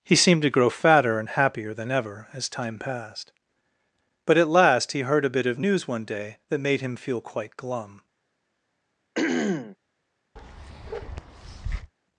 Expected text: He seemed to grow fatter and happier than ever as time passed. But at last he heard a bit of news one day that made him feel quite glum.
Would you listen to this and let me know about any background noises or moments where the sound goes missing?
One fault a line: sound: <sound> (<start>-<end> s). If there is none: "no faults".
sound: throat clearing (9.2-9.8 s)
sound: bark (10.4-11.9 s)